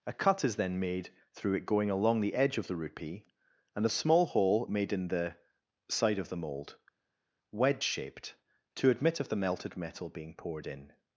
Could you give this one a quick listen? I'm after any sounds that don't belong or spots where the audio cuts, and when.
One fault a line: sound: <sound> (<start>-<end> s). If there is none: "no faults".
no faults